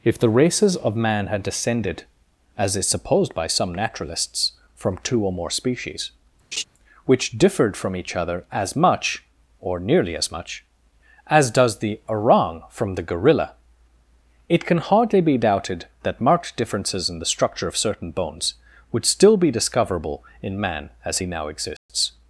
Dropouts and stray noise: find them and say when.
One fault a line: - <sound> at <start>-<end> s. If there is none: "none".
- laugh at 6.5-6.6 s
- dropout at 21.8-21.9 s